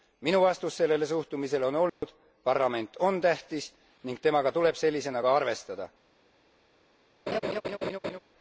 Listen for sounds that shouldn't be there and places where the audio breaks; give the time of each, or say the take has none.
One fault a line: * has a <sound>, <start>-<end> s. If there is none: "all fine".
* has a dropout, 1.9-2.0 s
* has a laugh, 7.3-8.2 s